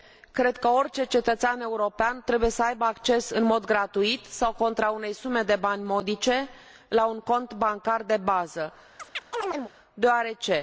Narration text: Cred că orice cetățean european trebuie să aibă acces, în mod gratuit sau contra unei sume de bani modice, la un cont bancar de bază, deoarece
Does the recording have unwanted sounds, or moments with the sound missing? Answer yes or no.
yes